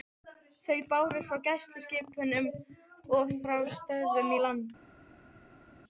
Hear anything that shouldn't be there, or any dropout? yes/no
no